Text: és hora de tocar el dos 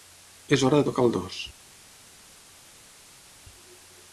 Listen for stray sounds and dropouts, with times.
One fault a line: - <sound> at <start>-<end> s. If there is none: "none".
none